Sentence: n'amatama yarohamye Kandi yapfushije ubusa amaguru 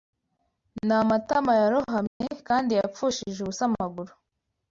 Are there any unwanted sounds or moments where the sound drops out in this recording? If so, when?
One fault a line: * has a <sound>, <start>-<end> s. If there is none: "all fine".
* has a dropout, 2.1-2.2 s